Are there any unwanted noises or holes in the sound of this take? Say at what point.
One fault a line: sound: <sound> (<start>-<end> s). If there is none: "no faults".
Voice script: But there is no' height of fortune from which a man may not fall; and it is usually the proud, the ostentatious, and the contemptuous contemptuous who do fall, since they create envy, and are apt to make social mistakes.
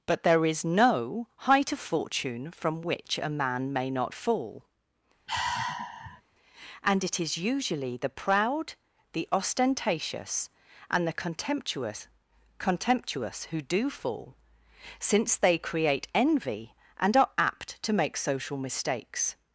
sound: sigh (5.3-6.2 s)